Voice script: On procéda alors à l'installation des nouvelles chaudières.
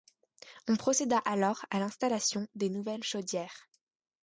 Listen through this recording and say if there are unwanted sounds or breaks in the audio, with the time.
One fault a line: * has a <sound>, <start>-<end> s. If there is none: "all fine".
all fine